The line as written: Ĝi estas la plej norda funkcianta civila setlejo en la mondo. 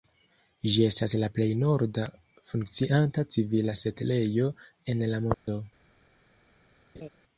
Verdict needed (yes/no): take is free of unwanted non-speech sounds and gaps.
no